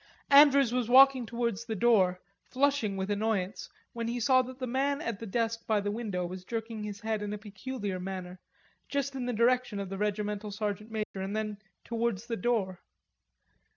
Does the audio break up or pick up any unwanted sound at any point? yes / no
yes